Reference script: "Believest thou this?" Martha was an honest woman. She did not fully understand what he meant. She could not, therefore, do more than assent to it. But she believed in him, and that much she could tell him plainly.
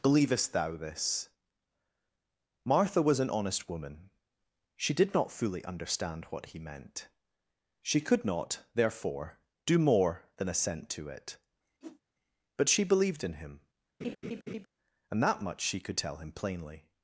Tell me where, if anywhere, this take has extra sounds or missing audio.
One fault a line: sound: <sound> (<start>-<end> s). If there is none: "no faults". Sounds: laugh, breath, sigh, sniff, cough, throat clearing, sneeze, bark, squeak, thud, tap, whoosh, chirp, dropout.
sound: whoosh (11.8-12.0 s)
sound: laugh (14.0-14.7 s)